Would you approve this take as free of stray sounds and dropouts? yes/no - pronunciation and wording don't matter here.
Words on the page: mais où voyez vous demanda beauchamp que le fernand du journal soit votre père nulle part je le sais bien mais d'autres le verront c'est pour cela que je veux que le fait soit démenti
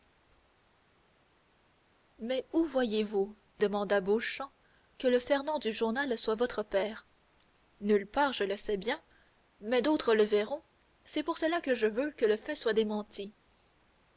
yes